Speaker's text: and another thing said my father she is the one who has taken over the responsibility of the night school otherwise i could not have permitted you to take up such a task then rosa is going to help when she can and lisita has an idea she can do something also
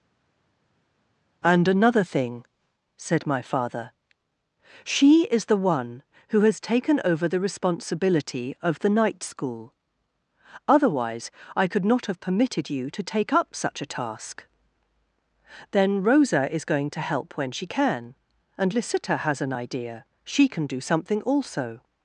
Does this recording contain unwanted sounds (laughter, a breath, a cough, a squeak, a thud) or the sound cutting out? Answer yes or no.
no